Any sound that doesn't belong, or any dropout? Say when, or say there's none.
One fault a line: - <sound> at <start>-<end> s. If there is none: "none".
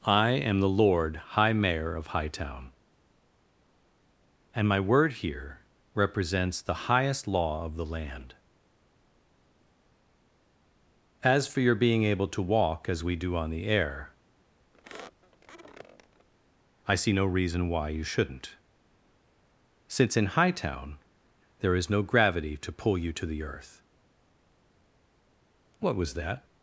- squeak at 14.7-16.3 s